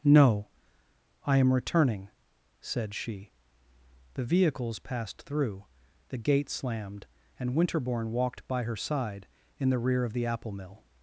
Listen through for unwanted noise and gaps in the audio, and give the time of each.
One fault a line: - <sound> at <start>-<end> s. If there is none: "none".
none